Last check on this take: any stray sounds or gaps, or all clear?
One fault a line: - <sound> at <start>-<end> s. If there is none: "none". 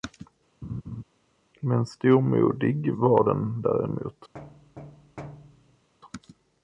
- laugh at 0.6-1.0 s
- thud at 4.3-5.9 s